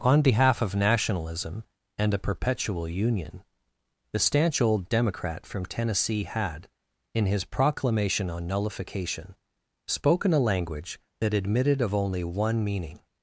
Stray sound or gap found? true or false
false